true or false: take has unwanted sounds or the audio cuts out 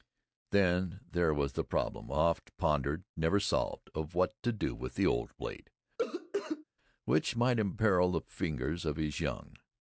true